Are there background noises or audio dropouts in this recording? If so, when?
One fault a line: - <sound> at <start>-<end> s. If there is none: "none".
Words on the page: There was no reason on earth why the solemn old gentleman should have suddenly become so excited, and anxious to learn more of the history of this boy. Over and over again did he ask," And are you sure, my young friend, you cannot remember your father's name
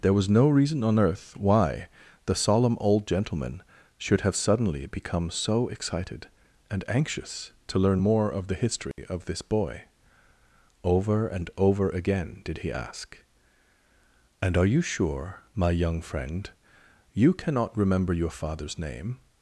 - dropout at 8.9-9.0 s